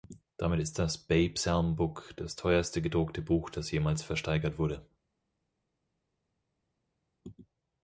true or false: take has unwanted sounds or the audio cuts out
false